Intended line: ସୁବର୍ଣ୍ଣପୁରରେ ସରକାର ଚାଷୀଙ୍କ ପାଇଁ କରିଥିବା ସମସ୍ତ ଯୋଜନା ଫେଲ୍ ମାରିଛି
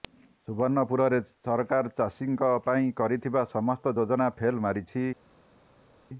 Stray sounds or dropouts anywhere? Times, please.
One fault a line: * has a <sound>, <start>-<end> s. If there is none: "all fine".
all fine